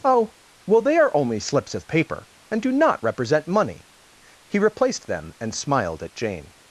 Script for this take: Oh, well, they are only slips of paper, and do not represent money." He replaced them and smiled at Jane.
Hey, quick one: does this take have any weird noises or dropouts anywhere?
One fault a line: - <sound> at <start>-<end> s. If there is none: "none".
none